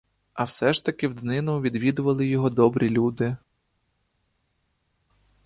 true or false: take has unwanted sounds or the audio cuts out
false